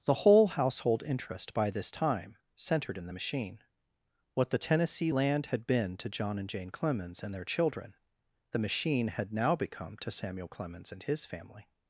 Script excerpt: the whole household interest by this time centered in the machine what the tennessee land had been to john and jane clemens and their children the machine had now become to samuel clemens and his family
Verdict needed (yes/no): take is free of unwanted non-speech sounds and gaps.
yes